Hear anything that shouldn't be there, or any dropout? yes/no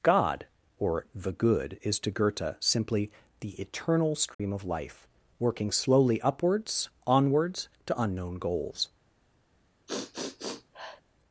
yes